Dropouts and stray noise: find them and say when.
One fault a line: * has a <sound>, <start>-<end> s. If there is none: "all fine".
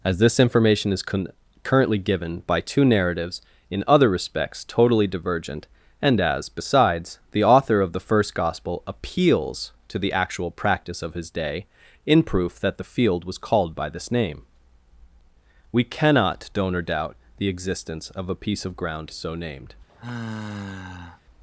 * has a sigh, 19.9-21.2 s